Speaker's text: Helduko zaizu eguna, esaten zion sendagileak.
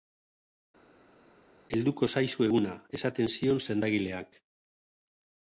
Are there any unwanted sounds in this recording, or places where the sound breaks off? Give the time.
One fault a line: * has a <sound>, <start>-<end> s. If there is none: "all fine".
all fine